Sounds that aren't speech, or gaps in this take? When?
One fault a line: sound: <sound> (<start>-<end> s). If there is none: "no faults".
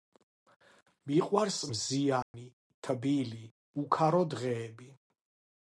sound: dropout (2.2-2.3 s)